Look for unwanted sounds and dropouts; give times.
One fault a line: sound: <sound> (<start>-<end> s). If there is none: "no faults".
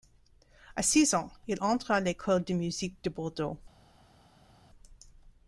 no faults